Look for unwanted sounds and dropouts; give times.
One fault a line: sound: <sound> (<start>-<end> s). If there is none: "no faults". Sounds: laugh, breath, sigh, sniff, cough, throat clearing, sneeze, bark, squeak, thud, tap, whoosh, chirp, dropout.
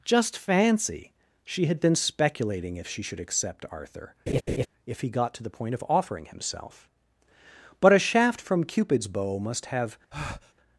sound: laugh (4.3-4.7 s)
sound: breath (10.1-10.5 s)